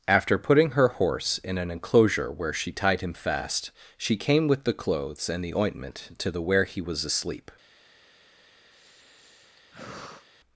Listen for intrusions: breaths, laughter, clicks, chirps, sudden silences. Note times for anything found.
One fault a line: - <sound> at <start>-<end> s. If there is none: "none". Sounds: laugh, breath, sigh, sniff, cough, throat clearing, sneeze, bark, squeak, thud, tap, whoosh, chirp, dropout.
- sigh at 8.7-10.3 s